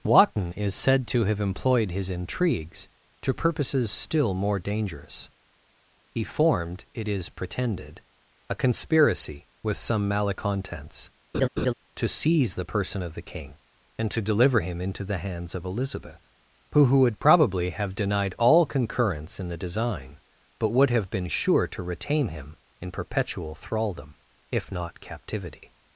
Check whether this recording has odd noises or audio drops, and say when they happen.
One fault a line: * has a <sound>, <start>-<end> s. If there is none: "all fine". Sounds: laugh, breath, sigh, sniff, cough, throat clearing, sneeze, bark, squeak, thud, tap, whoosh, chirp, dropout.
* has a laugh, 11.3-11.7 s